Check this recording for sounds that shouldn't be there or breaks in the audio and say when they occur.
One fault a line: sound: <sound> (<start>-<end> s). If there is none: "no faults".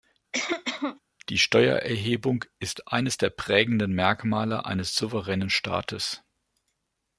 sound: cough (0.3-1.0 s)